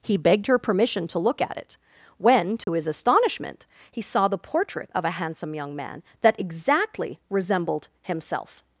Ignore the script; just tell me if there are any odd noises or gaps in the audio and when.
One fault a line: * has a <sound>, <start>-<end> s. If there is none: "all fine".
* has a dropout, 2.6-2.7 s